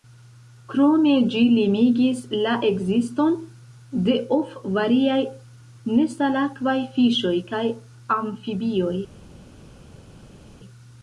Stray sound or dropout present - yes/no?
no